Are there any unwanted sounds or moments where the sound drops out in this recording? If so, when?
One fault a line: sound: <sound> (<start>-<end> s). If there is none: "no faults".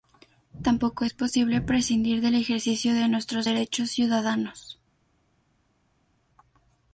no faults